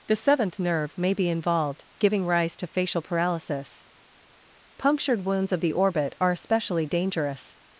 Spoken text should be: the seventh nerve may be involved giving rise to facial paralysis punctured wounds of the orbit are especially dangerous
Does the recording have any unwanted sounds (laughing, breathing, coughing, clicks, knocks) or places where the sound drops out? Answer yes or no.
no